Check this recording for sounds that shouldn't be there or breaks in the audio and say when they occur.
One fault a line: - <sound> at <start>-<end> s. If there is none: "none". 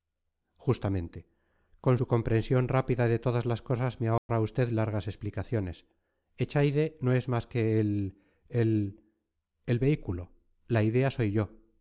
- dropout at 4.2-4.3 s